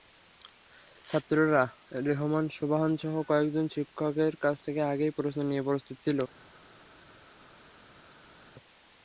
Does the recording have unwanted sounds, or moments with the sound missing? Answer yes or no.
no